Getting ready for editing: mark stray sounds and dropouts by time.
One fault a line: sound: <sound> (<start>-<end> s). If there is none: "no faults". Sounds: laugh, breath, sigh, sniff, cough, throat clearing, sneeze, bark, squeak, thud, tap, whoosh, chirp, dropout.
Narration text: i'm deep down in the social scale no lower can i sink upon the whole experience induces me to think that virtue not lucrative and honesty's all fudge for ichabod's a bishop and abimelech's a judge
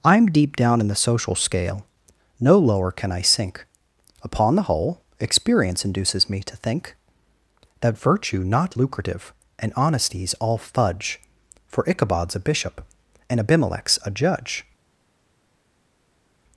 no faults